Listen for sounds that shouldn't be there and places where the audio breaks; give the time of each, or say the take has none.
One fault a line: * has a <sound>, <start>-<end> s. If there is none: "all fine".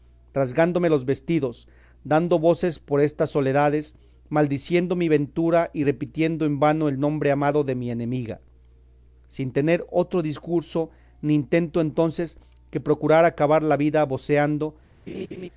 * has a laugh, 15.1-15.5 s